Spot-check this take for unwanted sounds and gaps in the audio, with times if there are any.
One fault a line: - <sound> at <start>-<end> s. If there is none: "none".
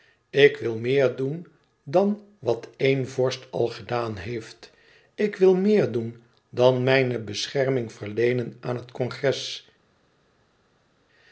none